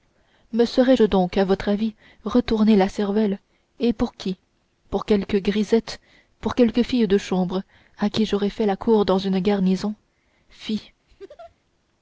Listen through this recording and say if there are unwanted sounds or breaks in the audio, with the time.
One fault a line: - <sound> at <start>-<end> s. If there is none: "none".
- laugh at 11.1-11.6 s